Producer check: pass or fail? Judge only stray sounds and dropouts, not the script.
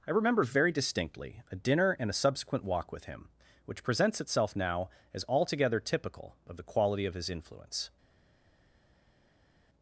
pass